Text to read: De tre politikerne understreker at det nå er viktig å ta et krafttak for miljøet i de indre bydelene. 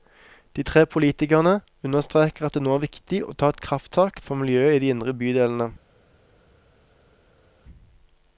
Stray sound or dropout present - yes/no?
no